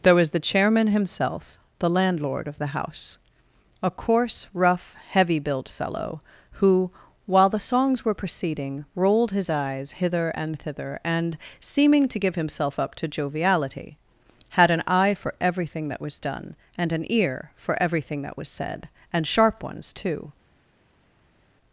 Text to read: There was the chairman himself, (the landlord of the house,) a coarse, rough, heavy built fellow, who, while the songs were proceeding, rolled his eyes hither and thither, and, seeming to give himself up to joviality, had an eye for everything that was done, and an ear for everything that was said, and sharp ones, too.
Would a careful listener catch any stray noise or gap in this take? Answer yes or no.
no